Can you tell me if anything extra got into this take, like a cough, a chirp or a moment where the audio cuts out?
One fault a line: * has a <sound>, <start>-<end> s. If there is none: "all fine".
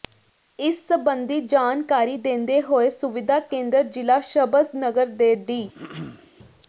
* has a throat clearing, 5.7-6.3 s